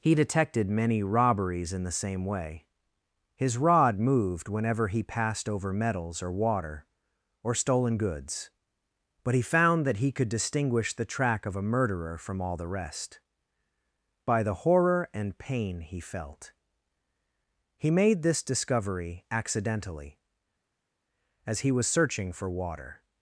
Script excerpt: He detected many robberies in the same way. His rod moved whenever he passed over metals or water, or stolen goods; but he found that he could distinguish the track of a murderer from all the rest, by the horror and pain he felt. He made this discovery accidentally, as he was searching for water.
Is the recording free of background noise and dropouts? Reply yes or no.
yes